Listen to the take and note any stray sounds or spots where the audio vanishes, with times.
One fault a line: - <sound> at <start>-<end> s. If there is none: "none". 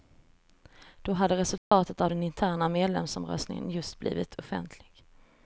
- dropout at 1.6-1.7 s